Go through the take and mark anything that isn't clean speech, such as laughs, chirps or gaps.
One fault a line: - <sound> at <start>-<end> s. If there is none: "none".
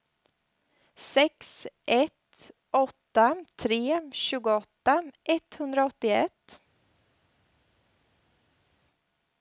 none